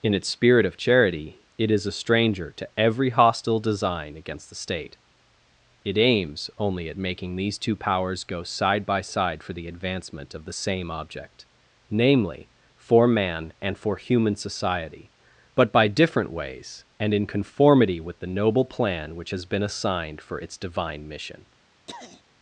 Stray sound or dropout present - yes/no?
yes